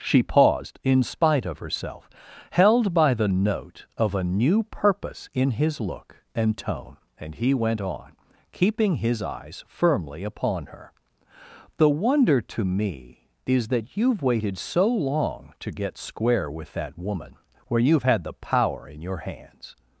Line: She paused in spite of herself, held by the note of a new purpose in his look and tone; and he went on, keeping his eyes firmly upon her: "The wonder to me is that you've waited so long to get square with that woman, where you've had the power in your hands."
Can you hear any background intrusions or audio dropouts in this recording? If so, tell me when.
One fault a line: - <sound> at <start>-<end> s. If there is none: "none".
none